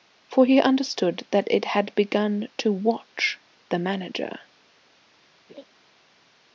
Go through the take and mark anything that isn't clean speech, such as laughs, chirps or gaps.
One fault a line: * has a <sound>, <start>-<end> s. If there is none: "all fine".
* has a laugh, 5.5-5.6 s